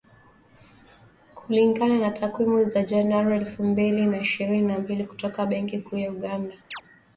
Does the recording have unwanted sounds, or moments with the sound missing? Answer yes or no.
yes